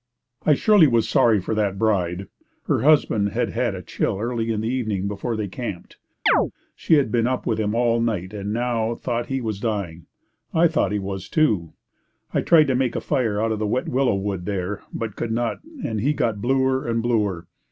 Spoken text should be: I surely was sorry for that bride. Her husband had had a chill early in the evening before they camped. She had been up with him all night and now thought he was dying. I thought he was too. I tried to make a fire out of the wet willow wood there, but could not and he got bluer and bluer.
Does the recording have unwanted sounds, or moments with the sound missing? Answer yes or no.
yes